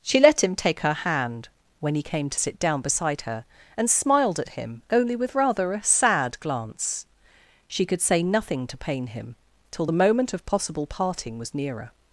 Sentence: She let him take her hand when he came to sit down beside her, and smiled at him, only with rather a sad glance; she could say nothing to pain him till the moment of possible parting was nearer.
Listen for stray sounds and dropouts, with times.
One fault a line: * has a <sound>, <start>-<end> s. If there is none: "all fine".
all fine